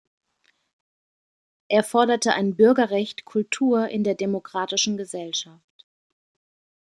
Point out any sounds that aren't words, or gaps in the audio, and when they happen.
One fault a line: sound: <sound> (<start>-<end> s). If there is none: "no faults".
no faults